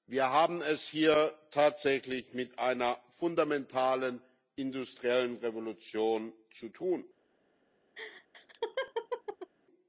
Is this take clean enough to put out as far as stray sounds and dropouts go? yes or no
no